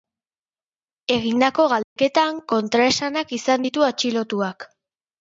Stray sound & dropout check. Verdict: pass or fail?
fail